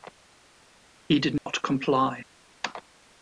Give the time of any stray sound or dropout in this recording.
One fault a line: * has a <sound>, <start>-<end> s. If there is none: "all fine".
* has a dropout, 1.4-1.5 s